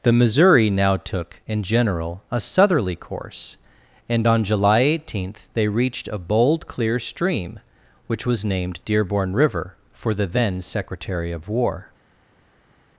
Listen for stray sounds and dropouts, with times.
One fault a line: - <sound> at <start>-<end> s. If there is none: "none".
none